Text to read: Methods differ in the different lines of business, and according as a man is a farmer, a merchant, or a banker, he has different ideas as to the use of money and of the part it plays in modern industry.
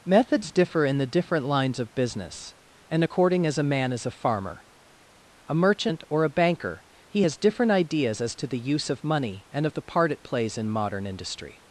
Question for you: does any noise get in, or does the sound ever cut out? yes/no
no